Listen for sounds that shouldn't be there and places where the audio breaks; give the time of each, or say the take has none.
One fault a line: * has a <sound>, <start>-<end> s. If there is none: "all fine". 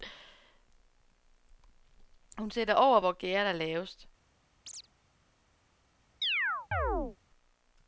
* has a chirp, 4.6-4.9 s
* has a chirp, 6.2-7.2 s